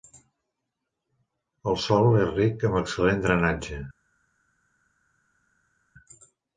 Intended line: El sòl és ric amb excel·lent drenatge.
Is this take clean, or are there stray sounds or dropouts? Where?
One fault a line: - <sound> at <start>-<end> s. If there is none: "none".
none